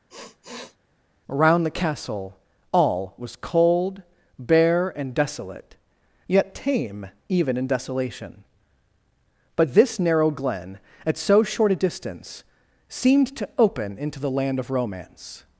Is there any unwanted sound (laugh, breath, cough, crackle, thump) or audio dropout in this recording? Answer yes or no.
yes